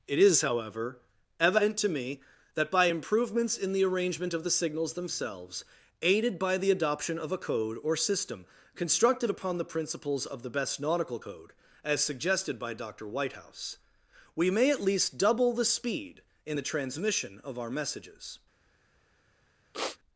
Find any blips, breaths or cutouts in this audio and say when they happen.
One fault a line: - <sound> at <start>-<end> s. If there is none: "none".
- sniff at 19.7-20.0 s